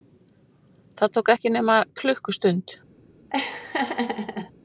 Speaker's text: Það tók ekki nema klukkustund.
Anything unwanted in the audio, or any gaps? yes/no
yes